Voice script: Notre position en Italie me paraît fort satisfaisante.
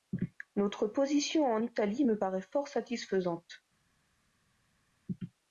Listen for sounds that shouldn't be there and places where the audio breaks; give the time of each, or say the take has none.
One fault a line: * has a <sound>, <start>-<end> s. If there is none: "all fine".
all fine